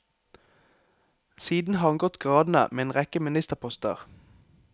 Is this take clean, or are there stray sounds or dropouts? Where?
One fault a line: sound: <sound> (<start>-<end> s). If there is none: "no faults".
no faults